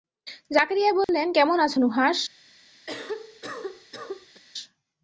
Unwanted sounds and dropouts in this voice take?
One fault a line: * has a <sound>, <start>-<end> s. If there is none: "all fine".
* has a dropout, 1.0-1.1 s
* has a cough, 2.9-4.4 s